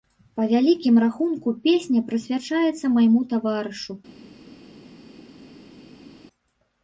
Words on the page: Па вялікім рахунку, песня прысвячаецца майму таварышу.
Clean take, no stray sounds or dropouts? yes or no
yes